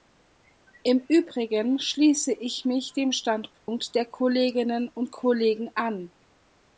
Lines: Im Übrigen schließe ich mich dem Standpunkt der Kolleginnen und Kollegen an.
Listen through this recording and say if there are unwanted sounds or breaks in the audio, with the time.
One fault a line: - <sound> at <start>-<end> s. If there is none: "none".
- dropout at 3.6-3.7 s